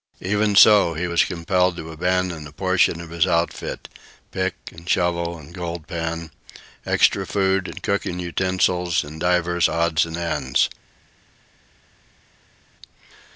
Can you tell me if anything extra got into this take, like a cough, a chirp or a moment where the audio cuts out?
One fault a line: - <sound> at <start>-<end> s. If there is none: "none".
none